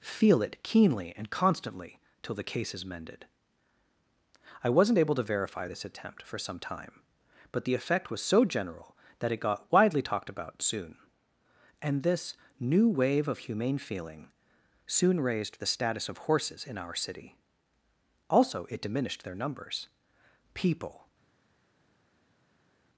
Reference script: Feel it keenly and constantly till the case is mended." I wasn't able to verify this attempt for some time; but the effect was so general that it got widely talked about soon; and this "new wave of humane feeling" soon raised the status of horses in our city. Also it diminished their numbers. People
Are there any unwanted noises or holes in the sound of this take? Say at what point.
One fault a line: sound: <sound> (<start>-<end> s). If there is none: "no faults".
no faults